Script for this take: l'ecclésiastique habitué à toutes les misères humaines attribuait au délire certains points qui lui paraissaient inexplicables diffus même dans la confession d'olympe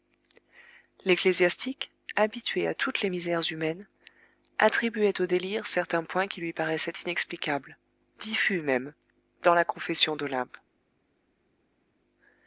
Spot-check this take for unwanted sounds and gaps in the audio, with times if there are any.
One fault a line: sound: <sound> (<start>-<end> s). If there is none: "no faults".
no faults